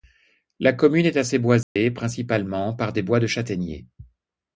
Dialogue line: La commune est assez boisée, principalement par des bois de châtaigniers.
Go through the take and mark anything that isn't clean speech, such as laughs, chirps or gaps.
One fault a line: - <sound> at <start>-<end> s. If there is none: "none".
- dropout at 1.6-1.8 s